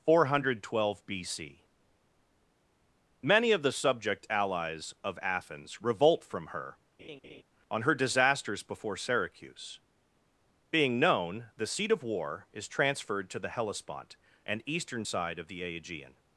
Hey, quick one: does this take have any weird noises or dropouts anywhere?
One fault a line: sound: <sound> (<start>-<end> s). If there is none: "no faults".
sound: laugh (7.0-7.4 s)